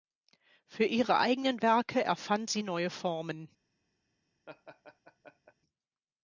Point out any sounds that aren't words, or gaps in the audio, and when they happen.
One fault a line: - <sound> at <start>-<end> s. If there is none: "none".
- laugh at 4.5-5.5 s